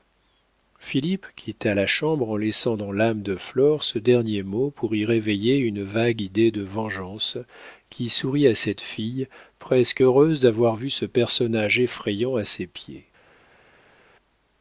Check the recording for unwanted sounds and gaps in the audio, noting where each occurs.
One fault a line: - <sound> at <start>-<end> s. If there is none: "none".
none